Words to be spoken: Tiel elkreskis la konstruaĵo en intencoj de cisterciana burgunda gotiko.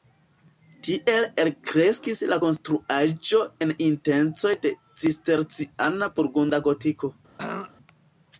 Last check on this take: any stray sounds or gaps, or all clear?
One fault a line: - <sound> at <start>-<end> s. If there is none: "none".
- throat clearing at 7.4-7.7 s